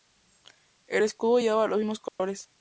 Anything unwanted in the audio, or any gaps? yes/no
yes